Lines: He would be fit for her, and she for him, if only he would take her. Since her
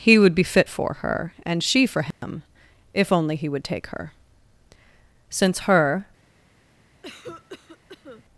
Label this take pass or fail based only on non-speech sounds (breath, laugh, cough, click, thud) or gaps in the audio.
fail